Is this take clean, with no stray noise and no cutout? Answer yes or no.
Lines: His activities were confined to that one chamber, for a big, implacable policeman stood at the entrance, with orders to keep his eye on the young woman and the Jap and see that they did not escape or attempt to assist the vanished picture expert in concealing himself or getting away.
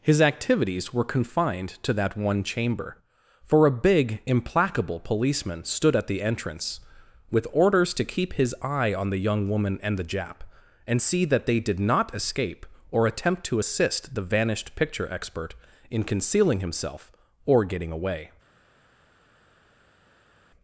yes